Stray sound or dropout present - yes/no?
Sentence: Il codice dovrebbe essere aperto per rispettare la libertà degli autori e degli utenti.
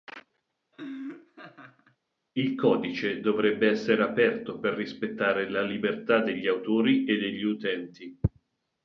yes